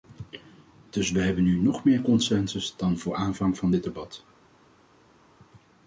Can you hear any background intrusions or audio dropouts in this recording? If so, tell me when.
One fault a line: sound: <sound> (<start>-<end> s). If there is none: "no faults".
no faults